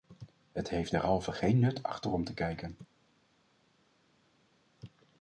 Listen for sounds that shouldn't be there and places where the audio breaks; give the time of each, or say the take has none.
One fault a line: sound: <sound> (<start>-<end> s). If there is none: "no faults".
no faults